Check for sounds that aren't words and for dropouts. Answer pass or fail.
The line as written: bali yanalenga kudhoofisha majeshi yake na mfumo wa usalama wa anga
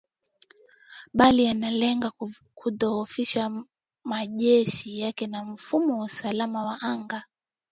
pass